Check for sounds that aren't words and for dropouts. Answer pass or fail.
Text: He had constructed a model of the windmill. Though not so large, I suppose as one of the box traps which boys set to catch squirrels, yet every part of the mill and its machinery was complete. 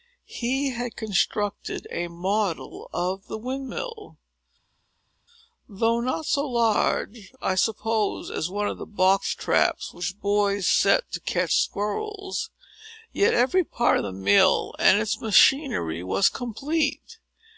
pass